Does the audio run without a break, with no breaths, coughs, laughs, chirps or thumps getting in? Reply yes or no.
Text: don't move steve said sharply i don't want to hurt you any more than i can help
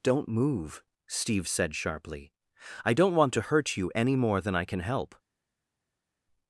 yes